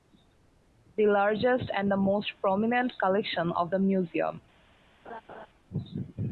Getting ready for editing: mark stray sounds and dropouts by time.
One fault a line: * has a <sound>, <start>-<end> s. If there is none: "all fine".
* has a laugh, 5.0-5.5 s